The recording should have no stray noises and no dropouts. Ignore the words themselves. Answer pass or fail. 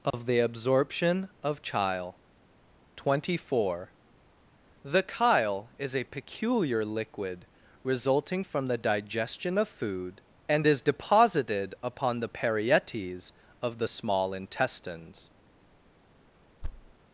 fail